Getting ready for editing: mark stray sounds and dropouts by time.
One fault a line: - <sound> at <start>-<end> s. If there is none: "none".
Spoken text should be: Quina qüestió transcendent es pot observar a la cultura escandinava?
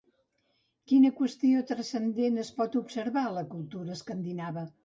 none